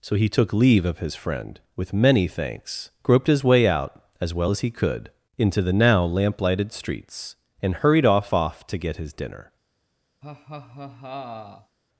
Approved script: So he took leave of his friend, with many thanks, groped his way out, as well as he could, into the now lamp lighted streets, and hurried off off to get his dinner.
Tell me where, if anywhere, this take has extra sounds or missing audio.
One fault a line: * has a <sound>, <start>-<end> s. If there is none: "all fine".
* has a laugh, 10.2-11.8 s